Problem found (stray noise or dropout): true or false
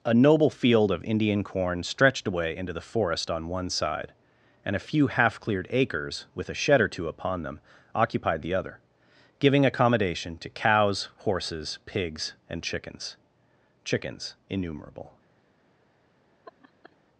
true